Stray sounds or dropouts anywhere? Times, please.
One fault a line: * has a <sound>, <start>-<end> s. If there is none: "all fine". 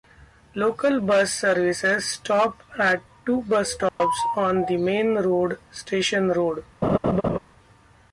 * has a dropout, 3.9-4.0 s
* has a laugh, 6.8-7.4 s